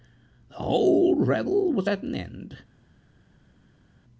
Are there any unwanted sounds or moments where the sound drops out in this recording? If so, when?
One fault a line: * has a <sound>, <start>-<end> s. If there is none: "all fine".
all fine